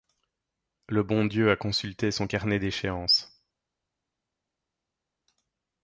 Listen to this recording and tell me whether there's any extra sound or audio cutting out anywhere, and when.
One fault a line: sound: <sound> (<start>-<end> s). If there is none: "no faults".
no faults